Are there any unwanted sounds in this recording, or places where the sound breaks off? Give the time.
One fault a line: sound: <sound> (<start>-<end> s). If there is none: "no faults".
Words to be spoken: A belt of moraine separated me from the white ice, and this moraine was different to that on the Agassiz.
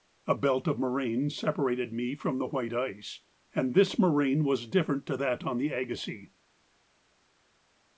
no faults